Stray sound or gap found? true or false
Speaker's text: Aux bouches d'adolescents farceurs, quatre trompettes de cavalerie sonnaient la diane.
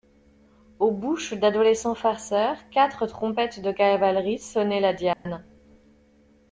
true